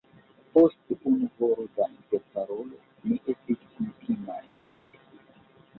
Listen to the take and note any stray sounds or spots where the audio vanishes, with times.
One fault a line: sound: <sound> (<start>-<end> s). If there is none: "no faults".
no faults